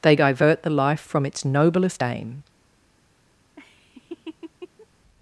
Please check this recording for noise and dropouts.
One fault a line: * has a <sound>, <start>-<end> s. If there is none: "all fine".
* has a laugh, 3.6-4.9 s